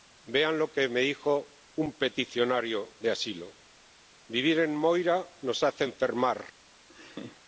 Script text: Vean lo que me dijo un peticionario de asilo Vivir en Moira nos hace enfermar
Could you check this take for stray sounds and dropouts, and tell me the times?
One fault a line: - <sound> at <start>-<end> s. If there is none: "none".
- laugh at 6.9-7.4 s